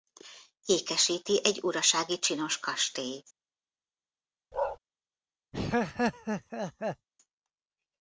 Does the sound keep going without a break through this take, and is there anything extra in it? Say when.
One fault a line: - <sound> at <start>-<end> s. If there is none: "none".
- bark at 4.5-4.8 s
- laugh at 5.5-7.1 s